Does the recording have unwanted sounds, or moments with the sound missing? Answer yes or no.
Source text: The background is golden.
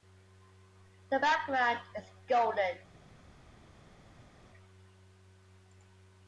no